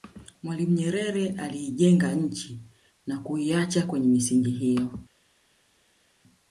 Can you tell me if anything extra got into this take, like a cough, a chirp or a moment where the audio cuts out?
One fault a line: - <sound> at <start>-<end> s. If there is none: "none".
none